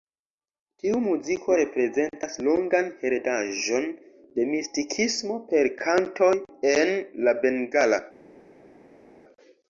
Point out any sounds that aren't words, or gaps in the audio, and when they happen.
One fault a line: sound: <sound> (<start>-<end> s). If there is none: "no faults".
no faults